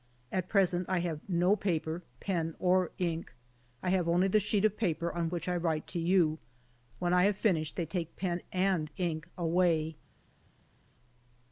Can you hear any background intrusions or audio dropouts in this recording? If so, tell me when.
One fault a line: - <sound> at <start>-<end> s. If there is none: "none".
none